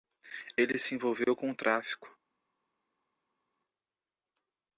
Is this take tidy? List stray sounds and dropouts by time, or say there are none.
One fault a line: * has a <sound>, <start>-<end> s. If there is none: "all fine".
all fine